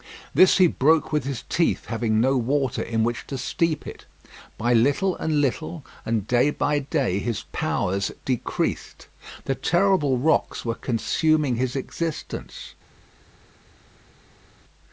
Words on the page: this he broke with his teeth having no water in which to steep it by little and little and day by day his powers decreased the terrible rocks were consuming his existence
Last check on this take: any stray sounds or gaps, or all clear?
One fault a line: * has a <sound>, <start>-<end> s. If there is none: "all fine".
all fine